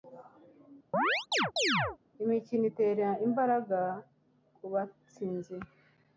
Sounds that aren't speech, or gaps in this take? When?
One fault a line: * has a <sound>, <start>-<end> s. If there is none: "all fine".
* has a chirp, 0.9-2.0 s